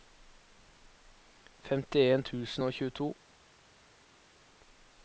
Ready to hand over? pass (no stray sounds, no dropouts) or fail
pass